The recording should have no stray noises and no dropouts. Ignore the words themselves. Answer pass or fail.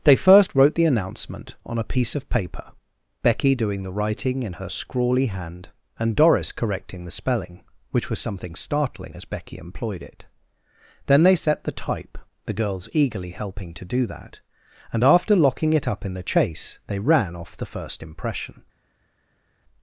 pass